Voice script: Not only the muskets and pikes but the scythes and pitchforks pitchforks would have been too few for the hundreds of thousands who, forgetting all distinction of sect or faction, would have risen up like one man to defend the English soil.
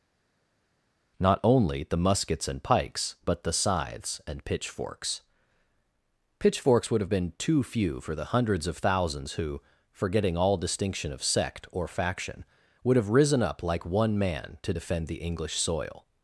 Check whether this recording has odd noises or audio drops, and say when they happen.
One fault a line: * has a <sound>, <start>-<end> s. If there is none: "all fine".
all fine